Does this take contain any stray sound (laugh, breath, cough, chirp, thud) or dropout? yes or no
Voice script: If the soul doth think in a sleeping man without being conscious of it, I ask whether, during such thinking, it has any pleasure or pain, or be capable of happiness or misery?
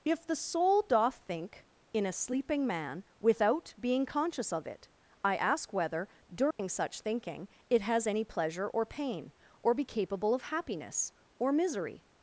yes